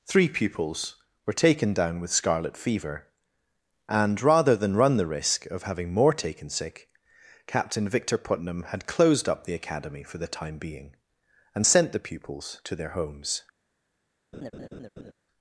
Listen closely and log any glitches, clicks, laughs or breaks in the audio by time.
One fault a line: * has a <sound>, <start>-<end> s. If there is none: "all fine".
* has a laugh, 14.3-15.1 s